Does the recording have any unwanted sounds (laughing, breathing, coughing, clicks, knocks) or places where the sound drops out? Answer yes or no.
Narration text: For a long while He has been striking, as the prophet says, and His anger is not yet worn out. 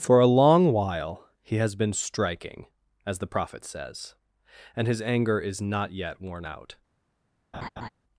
yes